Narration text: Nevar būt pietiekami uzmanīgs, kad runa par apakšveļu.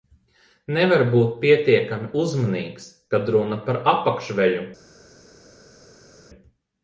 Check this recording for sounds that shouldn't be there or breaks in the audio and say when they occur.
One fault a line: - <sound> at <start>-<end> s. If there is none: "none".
none